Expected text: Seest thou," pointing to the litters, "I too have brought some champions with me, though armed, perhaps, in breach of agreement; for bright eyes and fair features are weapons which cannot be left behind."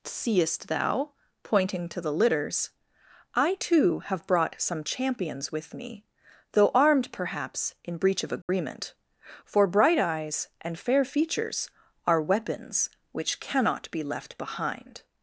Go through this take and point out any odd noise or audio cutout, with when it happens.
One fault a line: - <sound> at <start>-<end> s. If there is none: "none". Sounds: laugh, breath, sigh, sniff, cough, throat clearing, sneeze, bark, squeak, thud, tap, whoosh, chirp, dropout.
- dropout at 8.4-8.5 s